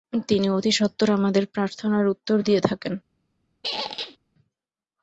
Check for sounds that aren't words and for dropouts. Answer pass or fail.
fail